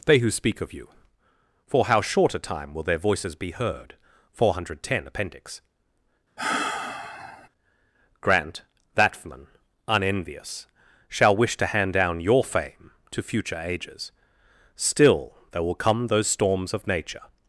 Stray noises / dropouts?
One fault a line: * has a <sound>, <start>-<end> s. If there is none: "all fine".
* has a sigh, 6.4-7.5 s